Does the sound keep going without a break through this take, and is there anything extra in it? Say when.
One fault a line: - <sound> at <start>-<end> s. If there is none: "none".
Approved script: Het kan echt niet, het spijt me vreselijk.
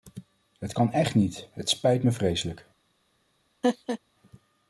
- laugh at 3.6-4.0 s